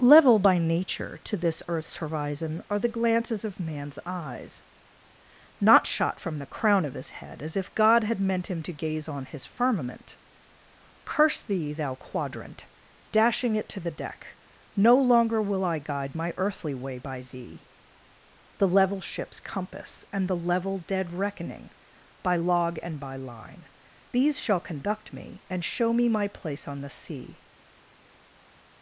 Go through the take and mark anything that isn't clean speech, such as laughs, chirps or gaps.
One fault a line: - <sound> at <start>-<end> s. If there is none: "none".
none